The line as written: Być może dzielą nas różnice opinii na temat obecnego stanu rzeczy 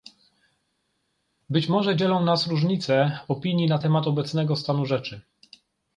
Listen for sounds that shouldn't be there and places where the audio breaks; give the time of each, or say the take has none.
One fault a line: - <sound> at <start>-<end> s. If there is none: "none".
none